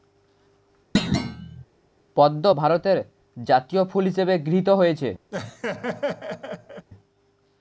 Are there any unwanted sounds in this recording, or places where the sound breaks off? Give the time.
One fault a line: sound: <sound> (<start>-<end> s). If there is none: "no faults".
sound: thud (0.9-1.6 s)
sound: laugh (5.3-6.9 s)